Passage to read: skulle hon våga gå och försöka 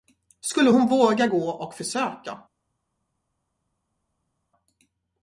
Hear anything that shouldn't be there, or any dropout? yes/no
no